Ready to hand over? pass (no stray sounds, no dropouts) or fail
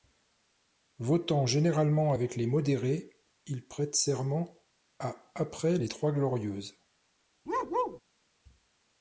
fail